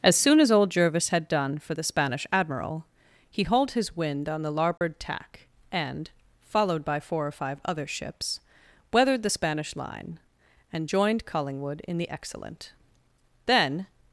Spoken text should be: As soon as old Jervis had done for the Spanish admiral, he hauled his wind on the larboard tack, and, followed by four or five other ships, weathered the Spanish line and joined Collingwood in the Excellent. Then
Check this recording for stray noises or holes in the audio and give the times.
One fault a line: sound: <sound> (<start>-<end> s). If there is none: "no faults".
sound: dropout (4.8-4.8 s)